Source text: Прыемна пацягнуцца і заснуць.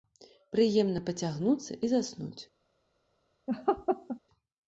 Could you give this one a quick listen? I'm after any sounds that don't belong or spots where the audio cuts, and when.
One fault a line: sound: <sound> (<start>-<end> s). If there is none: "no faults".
sound: laugh (3.5-4.2 s)